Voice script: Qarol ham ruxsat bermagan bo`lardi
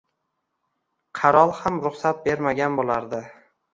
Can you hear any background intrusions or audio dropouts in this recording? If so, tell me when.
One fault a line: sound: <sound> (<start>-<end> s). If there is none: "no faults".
no faults